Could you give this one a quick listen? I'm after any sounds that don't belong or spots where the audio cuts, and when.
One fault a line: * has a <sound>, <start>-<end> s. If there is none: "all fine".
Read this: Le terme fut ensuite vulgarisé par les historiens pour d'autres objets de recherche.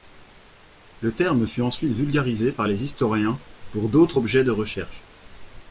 all fine